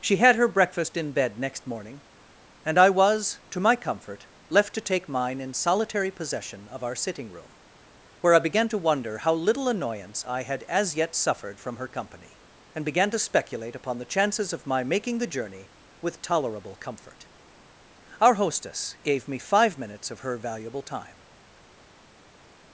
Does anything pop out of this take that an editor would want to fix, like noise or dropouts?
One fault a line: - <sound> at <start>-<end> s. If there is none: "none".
none